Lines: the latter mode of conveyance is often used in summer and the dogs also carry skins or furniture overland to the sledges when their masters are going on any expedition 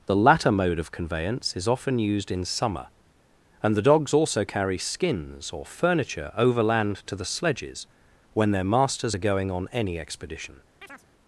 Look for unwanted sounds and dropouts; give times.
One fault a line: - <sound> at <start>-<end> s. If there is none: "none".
- chirp at 10.8-11.1 s